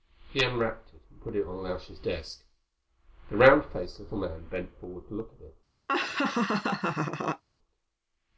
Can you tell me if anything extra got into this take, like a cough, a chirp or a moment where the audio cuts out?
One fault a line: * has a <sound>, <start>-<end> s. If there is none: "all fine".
* has a laugh, 5.9-7.4 s